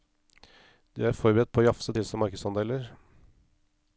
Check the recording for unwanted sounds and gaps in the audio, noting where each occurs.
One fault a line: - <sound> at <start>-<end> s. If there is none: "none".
none